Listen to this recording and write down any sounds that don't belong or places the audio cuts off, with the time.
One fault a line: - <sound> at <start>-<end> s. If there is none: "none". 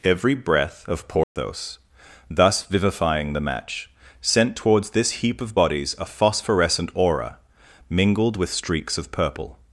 - dropout at 1.2-1.4 s